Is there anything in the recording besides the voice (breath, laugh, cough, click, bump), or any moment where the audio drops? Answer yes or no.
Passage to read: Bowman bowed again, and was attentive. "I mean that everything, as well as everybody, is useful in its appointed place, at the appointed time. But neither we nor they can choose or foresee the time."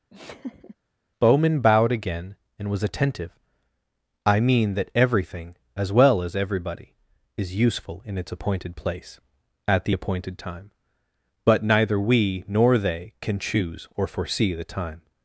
yes